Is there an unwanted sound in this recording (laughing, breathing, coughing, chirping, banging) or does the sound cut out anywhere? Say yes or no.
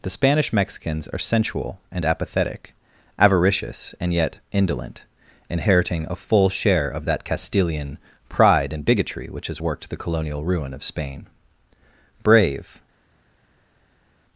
no